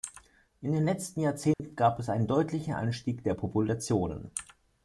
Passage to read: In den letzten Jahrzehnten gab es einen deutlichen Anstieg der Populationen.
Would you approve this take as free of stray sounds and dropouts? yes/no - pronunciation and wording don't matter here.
no